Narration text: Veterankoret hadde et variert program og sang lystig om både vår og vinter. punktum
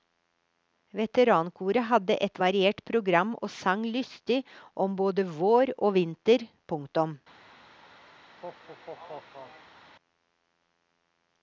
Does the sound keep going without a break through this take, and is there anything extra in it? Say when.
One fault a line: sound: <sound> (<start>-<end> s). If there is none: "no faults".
sound: laugh (8.2-9.8 s)